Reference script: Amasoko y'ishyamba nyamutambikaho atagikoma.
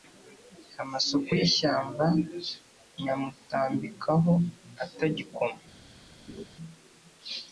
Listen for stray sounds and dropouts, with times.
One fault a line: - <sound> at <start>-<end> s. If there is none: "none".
- laugh at 6.3-6.5 s